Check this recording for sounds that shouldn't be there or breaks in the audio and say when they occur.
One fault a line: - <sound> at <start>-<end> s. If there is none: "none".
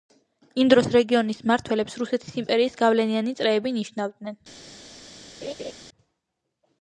- laugh at 5.4-5.7 s